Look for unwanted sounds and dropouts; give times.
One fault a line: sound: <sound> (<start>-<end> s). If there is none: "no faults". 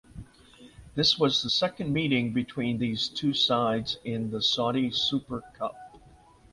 no faults